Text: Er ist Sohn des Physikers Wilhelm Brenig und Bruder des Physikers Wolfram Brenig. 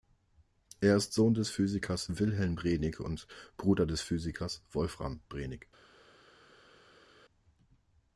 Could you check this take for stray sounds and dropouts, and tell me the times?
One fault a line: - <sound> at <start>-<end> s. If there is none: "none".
none